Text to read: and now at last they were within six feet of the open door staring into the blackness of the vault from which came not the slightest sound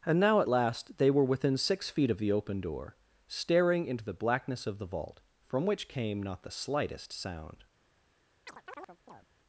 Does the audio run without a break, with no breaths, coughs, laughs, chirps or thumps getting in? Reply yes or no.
no